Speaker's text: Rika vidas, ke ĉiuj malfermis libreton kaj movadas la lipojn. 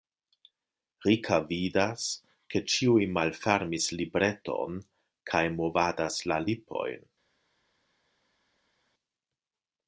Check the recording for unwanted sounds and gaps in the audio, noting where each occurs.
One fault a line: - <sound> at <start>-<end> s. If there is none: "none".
none